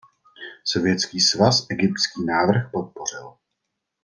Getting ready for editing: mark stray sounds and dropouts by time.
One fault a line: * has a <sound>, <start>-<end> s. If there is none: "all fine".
all fine